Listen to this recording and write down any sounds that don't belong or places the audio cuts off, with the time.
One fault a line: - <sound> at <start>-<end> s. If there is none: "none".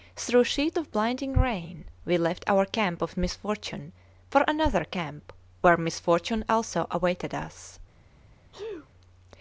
- sneeze at 8.5-8.9 s